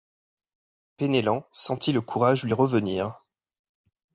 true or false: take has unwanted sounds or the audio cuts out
false